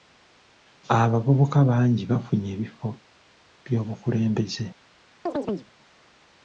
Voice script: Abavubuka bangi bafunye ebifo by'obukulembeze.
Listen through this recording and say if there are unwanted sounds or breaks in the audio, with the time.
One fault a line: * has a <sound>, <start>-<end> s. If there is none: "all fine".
* has a chirp, 5.3-5.7 s